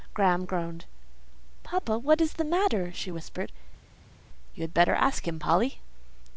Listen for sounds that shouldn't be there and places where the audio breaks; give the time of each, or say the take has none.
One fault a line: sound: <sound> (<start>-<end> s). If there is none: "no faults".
no faults